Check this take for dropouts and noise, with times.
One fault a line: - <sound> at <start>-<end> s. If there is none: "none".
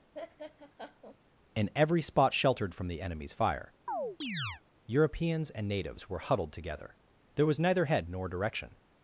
- laugh at 0.1-1.2 s
- chirp at 3.9-4.6 s